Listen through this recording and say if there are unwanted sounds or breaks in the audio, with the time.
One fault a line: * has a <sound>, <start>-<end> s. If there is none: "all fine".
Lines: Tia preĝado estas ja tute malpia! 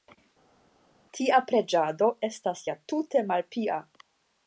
all fine